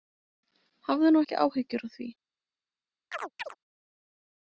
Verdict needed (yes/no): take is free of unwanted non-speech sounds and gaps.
no